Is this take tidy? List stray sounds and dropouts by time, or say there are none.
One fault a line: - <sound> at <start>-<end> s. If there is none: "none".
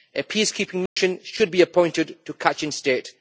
- dropout at 0.9-1.0 s